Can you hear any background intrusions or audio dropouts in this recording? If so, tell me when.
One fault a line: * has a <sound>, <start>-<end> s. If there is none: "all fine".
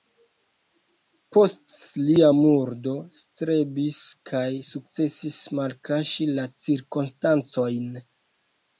all fine